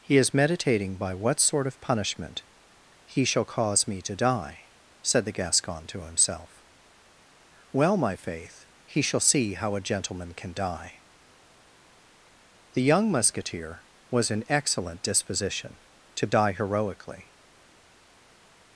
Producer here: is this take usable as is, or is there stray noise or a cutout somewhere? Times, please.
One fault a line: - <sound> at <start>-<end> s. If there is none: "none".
none